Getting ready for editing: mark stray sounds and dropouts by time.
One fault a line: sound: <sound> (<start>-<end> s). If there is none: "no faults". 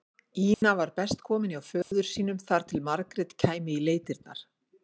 sound: dropout (0.5-0.6 s)
sound: dropout (1.8-1.9 s)